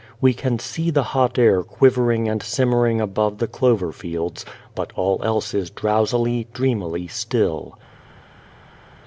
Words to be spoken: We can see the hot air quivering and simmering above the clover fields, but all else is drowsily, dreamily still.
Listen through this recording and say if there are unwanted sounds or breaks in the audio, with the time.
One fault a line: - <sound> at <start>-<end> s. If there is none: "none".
none